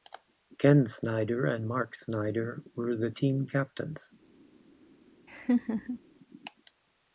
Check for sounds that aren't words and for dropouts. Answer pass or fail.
fail